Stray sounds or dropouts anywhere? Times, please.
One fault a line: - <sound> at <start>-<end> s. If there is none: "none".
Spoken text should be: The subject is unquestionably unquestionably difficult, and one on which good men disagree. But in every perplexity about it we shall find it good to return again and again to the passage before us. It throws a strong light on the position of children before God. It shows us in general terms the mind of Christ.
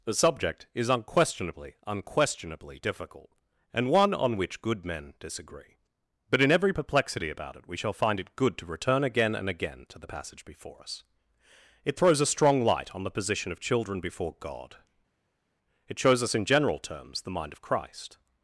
none